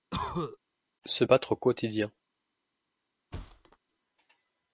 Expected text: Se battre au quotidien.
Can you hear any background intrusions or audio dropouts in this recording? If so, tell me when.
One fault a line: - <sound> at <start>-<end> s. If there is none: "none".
- cough at 0.1-0.6 s
- thud at 3.3-3.8 s